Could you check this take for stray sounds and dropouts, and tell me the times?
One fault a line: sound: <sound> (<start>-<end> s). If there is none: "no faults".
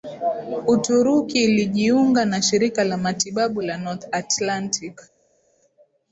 no faults